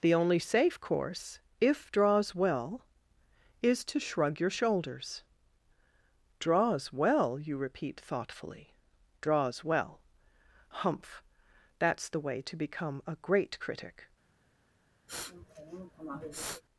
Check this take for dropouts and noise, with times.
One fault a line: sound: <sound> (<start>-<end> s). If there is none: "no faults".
sound: sniff (15.1-16.6 s)